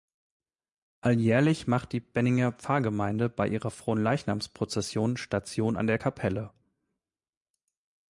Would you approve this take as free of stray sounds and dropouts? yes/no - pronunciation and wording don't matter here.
yes